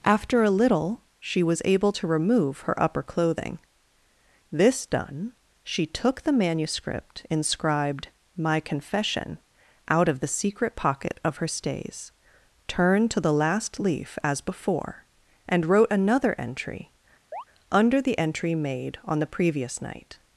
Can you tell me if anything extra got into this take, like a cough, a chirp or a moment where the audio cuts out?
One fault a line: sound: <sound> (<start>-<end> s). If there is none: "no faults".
sound: chirp (17.3-17.4 s)